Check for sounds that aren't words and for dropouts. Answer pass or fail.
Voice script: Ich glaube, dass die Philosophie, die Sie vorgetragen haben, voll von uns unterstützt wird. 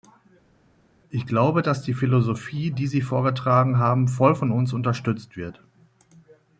pass